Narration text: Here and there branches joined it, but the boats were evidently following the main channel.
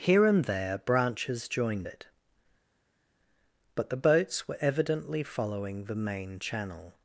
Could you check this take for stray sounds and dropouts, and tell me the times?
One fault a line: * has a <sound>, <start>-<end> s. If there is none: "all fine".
all fine